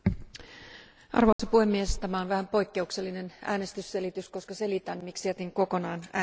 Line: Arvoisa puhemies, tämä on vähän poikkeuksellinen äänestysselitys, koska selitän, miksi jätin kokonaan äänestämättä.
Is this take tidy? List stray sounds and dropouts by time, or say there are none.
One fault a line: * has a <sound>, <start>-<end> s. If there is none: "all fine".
* has a dropout, 1.3-1.4 s